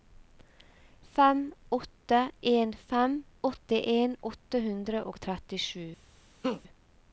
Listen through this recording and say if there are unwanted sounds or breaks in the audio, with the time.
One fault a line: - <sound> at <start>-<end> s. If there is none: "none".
- laugh at 6.4-6.6 s